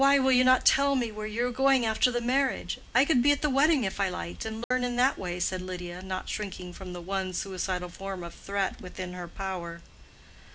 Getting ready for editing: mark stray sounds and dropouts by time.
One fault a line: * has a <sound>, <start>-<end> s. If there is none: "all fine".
* has a dropout, 4.6-4.7 s